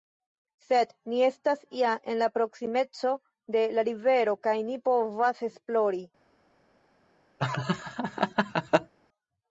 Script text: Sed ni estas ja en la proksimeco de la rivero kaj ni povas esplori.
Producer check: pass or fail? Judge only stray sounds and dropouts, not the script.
fail